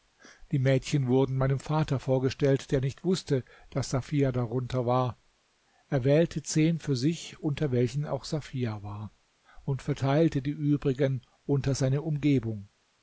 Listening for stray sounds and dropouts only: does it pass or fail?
pass